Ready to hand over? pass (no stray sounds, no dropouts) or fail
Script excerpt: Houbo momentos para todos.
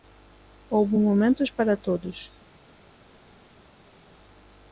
pass